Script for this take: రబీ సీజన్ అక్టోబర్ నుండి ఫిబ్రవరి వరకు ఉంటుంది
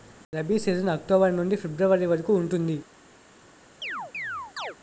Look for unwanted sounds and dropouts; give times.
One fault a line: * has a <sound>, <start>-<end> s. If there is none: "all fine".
* has a chirp, 3.8-4.8 s